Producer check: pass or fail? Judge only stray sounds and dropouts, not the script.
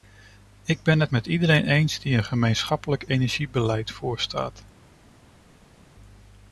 pass